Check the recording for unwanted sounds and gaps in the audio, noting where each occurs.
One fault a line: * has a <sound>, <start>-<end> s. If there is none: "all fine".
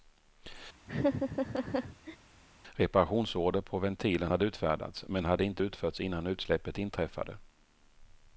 * has a laugh, 0.9-2.2 s